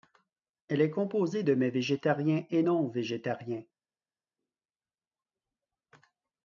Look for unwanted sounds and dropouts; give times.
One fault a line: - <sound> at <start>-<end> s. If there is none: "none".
none